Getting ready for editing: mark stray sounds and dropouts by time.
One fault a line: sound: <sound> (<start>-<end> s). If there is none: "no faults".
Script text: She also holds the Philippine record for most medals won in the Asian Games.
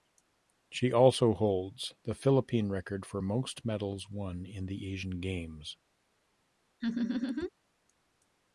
sound: laugh (6.8-7.5 s)